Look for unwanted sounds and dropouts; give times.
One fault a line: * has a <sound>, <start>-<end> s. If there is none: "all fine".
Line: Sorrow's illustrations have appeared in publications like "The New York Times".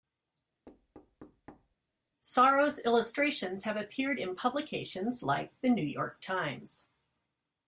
* has a thud, 0.7-1.8 s